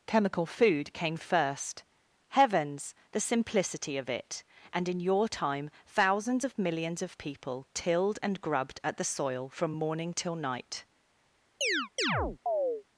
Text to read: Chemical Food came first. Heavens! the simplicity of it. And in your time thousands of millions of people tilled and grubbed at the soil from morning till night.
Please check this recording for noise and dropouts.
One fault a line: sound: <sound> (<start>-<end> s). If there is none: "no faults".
sound: chirp (11.6-12.8 s)